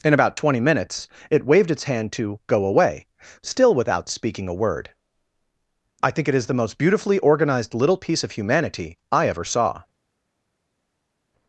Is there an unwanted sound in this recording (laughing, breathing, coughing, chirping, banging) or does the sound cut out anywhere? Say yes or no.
no